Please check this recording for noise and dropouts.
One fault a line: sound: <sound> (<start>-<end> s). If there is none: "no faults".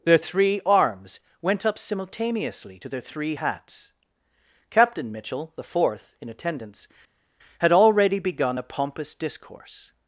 no faults